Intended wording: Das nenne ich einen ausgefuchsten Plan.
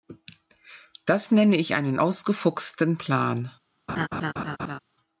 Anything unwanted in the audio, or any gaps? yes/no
yes